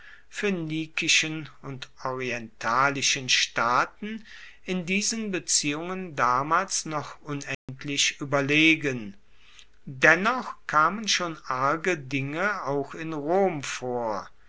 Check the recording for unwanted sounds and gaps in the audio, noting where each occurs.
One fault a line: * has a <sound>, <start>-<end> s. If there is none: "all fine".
* has a dropout, 7.5-7.7 s